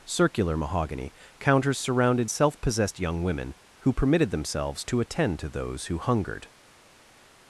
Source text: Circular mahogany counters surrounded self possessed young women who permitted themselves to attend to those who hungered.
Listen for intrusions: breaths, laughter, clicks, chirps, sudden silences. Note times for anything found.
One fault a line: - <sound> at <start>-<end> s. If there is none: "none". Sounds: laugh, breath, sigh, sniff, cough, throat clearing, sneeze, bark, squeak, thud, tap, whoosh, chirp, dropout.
none